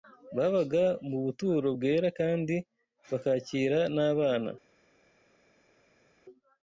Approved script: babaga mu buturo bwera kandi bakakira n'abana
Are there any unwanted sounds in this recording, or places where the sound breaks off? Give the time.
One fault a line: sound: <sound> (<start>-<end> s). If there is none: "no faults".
no faults